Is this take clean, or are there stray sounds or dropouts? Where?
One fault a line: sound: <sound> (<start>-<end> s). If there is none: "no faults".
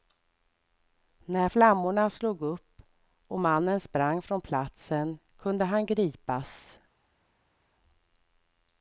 no faults